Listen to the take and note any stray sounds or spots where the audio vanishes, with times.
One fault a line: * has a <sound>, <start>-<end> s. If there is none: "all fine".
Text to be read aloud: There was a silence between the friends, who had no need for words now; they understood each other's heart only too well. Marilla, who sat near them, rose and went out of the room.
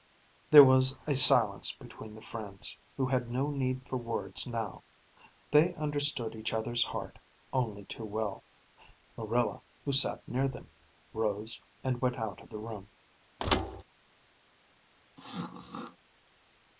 * has a thud, 13.4-13.8 s
* has a throat clearing, 15.2-16.0 s